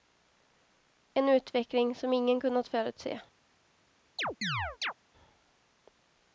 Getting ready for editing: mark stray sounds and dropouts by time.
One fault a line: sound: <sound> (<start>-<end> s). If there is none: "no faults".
sound: chirp (4.2-4.9 s)